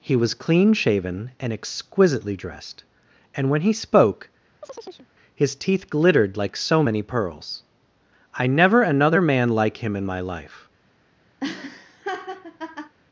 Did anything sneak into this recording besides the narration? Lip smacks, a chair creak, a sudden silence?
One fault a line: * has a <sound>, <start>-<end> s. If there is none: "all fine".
* has a chirp, 4.6-5.1 s
* has a laugh, 11.4-12.9 s